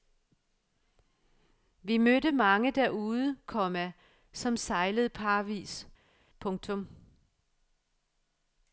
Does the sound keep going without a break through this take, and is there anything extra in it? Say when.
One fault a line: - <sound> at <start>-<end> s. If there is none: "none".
none